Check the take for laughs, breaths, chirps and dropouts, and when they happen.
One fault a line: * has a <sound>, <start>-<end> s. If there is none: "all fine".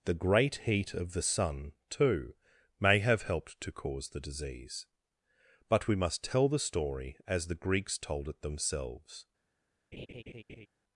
* has a laugh, 9.9-10.7 s